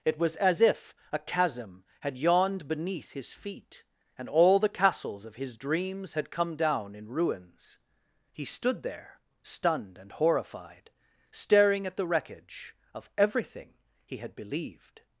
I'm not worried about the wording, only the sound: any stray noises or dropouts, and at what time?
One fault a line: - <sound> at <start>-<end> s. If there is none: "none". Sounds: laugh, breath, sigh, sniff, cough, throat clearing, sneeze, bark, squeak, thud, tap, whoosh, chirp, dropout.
none